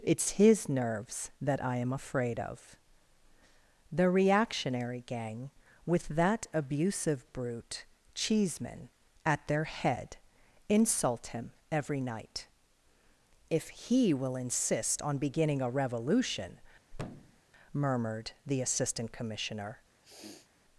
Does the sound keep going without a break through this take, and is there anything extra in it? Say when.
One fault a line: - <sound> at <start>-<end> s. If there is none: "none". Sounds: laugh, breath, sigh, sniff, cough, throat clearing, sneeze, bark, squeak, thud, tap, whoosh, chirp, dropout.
- thud at 16.9-17.4 s
- sniff at 20.0-20.5 s